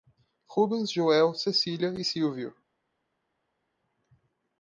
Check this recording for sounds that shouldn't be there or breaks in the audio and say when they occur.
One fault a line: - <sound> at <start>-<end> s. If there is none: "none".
none